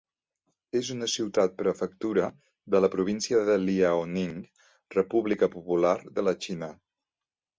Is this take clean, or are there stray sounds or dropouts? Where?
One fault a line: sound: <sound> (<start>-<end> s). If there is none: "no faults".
no faults